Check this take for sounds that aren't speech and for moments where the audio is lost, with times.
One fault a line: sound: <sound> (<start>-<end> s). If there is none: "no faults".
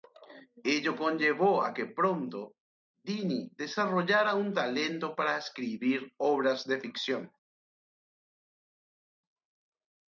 no faults